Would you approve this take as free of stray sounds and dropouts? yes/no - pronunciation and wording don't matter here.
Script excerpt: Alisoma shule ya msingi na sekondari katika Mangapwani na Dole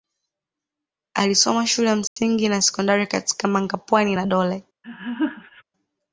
no